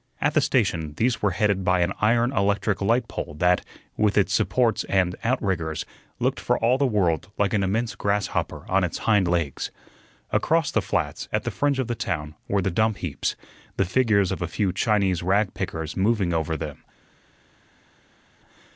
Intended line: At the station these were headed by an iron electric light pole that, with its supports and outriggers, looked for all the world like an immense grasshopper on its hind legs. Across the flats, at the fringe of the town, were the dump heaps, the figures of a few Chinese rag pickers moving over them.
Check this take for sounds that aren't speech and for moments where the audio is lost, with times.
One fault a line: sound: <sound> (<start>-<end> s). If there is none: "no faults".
no faults